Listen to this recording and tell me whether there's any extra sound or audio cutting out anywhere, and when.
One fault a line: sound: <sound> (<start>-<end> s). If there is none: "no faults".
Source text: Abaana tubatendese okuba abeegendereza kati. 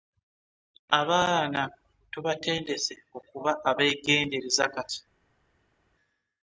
no faults